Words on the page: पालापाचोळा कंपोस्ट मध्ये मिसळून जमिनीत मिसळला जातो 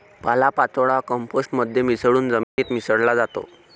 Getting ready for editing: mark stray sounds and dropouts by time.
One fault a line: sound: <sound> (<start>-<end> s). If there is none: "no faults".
sound: dropout (2.4-2.6 s)